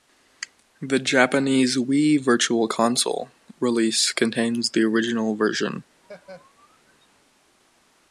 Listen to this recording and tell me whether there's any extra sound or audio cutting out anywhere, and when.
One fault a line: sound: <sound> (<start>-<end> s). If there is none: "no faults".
sound: laugh (6.0-7.1 s)